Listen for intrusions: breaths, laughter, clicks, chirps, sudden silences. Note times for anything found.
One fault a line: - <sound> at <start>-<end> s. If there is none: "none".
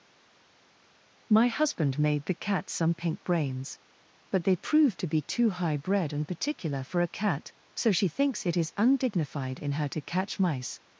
none